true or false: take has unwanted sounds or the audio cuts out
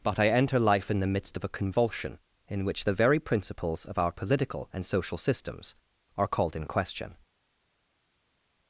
false